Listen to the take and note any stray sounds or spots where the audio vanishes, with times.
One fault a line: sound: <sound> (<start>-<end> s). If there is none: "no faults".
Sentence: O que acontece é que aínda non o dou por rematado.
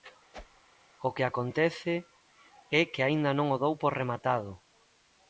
sound: whoosh (0.3-0.6 s)